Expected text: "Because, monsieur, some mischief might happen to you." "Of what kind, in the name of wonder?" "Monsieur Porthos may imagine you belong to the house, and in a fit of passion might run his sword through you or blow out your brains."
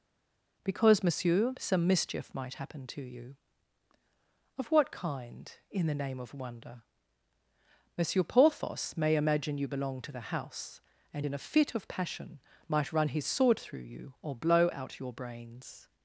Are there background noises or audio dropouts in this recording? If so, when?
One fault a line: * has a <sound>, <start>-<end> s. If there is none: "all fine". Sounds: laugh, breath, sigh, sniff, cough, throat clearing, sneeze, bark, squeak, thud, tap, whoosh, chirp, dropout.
all fine